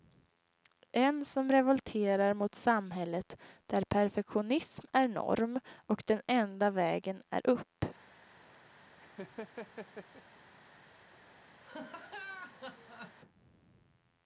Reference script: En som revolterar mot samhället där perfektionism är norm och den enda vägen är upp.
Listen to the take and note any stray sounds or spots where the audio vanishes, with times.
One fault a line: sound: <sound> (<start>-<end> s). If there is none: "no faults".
sound: laugh (9.0-10.2 s)
sound: laugh (11.6-13.2 s)